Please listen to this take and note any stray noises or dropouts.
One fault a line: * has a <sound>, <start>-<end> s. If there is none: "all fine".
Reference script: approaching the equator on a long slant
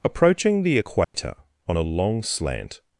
* has a dropout, 1.0-1.1 s